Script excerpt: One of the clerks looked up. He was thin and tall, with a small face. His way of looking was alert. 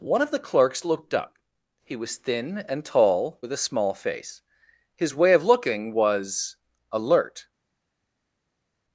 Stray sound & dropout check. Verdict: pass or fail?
pass